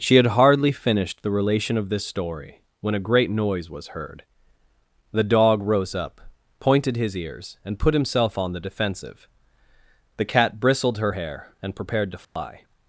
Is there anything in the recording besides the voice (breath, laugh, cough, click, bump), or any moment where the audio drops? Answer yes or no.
yes